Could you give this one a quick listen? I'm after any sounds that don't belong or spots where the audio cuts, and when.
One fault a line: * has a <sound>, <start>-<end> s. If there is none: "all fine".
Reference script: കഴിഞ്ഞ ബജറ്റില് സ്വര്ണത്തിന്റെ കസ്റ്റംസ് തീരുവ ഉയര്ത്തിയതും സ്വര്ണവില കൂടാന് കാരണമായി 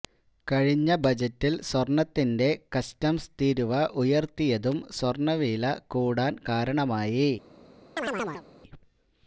* has a chirp, 8.0-8.5 s